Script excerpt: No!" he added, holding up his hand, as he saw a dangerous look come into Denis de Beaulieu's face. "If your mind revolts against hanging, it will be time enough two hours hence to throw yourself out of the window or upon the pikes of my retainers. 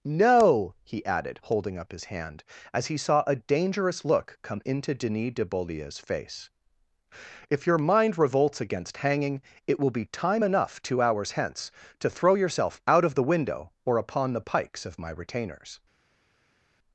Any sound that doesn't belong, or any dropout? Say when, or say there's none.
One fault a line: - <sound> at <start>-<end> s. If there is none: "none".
none